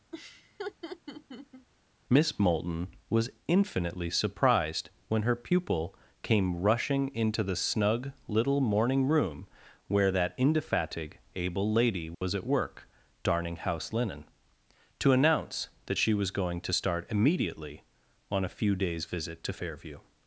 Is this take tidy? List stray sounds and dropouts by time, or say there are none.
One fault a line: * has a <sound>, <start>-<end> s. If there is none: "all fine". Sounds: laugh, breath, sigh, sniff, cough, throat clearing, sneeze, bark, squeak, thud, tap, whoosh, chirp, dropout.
* has a laugh, 0.1-1.7 s
* has a dropout, 12.1-12.2 s